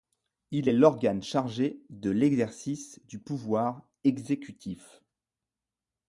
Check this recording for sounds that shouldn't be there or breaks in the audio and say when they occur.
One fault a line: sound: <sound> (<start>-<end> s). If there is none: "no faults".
no faults